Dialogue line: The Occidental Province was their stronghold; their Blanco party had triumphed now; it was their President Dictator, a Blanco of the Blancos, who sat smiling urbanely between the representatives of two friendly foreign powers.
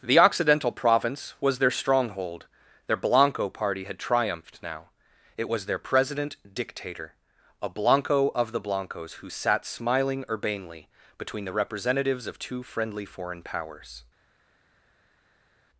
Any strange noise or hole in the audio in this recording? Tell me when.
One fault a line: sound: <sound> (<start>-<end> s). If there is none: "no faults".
no faults